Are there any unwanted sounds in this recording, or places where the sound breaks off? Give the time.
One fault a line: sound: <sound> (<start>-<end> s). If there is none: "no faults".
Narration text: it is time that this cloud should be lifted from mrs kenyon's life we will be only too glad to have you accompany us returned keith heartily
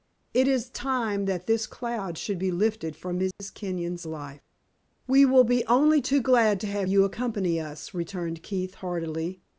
sound: dropout (3.3-3.4 s)